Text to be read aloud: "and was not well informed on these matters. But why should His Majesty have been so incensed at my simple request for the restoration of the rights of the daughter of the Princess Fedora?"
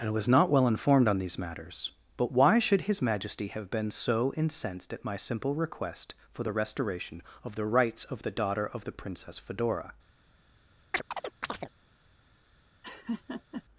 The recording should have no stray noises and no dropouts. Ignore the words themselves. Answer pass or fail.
fail